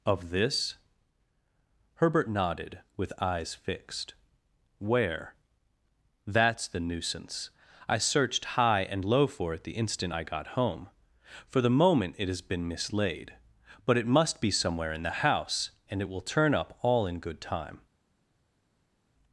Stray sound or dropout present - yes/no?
no